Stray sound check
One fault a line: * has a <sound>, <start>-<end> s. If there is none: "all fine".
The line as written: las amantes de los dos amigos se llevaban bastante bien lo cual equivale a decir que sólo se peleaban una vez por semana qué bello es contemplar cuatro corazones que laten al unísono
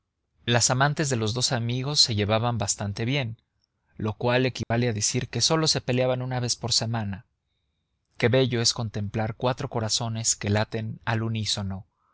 * has a dropout, 4.6-4.7 s